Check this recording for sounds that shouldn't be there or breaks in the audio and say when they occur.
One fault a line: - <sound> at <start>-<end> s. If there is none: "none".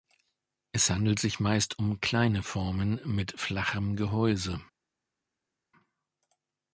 none